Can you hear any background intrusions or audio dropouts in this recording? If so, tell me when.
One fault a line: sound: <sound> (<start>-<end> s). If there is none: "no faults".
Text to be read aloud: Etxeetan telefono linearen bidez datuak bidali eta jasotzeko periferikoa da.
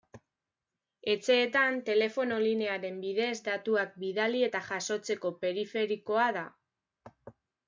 no faults